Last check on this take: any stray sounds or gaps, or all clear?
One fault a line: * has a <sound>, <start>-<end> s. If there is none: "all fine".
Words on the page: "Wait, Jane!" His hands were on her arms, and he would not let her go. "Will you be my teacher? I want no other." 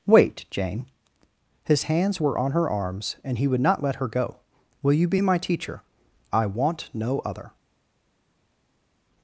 all fine